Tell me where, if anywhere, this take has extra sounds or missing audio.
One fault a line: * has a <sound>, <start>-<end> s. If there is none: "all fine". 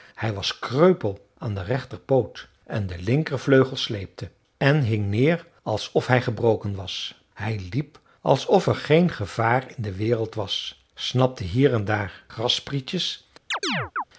* has a chirp, 13.5-14.0 s